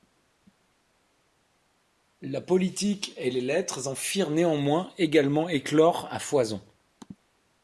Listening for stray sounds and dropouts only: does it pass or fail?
pass